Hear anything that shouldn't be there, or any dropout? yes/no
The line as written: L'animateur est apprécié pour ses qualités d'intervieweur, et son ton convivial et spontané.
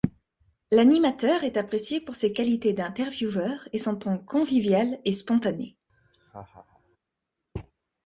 yes